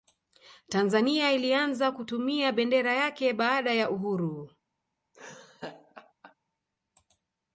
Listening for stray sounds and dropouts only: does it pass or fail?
fail